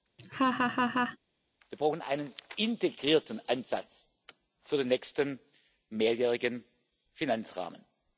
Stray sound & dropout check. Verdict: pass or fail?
fail